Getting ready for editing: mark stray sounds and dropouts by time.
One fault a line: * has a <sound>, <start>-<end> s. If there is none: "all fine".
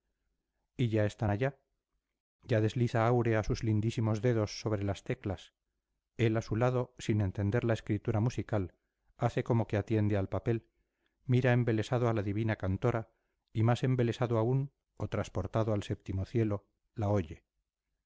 all fine